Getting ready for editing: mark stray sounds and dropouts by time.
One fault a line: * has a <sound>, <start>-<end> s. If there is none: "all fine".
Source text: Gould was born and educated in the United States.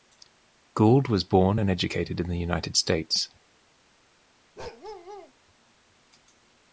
* has a bark, 4.6-5.3 s